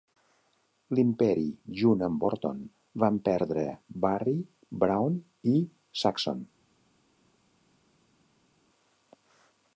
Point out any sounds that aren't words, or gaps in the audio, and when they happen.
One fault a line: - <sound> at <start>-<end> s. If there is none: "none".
none